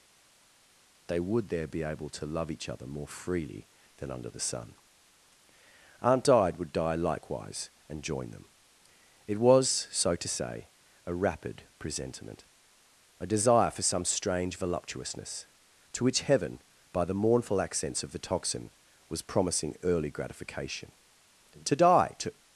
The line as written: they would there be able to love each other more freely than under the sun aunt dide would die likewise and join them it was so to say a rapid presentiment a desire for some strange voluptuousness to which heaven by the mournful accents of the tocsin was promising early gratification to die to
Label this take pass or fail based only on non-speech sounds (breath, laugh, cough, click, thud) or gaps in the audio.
pass